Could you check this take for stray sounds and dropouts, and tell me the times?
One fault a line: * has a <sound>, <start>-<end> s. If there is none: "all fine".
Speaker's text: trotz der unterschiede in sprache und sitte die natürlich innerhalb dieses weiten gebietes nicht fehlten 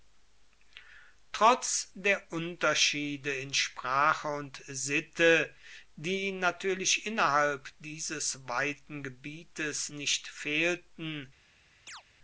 * has a chirp, 11.9-12.0 s